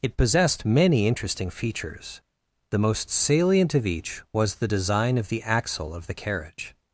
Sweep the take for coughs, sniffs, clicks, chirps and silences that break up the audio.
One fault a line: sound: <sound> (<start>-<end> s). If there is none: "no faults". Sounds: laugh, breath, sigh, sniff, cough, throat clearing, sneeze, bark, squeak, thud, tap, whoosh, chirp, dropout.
no faults